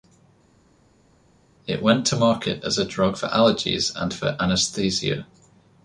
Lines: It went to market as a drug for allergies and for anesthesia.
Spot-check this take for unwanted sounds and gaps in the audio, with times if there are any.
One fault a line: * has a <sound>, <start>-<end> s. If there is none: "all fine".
all fine